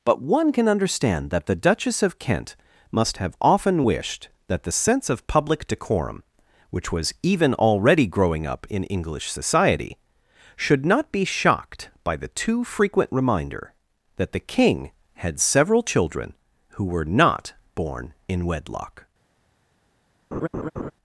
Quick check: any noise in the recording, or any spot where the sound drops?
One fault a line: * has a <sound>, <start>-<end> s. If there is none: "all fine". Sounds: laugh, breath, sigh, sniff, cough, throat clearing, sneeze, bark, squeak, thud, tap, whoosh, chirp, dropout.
* has a laugh, 20.3-20.9 s